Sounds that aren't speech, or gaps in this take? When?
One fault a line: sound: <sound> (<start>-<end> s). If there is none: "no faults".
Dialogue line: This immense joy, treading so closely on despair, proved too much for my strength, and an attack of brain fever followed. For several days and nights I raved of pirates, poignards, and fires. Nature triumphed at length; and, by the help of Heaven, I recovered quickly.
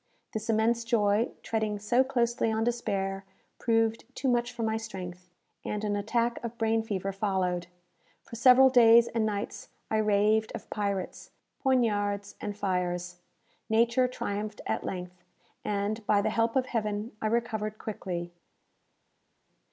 no faults